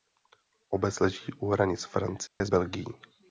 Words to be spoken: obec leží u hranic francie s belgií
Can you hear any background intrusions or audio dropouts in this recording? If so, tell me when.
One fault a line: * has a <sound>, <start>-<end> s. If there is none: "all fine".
* has a dropout, 2.3-2.4 s